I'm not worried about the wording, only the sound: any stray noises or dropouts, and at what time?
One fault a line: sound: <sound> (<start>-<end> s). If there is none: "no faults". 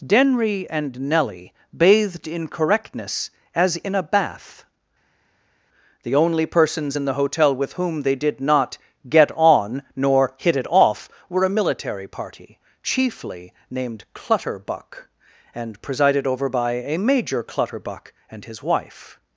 no faults